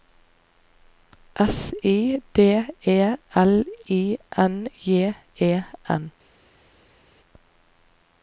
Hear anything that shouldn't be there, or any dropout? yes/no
no